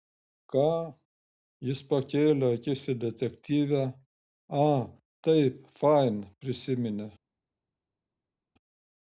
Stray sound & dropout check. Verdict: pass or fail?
pass